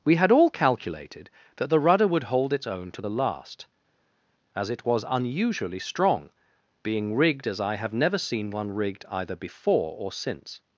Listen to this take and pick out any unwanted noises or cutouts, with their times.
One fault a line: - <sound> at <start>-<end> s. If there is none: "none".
none